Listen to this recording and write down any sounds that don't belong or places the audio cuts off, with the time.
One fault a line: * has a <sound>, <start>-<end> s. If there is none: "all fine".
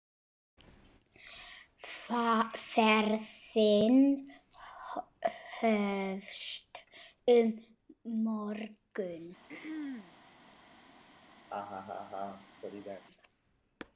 * has a throat clearing, 9.5-10.2 s
* has a laugh, 11.5-13.0 s